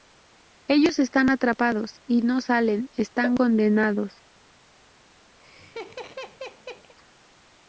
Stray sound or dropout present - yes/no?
yes